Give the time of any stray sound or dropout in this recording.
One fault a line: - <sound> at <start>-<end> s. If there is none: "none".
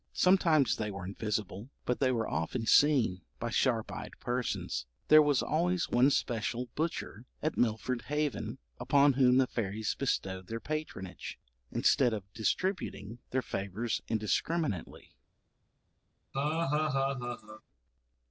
- laugh at 16.3-17.6 s